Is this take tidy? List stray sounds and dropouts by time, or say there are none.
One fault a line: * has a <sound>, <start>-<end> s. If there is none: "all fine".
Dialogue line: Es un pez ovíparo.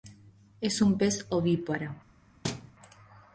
* has a thud, 2.4-2.7 s